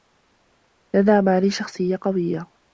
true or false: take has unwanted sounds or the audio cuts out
false